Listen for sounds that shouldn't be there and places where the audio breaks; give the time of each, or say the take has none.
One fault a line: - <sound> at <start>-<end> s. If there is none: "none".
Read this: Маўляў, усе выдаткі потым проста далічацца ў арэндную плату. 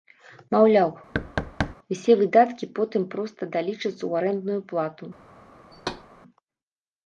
- thud at 1.1-1.8 s
- thud at 5.7-6.1 s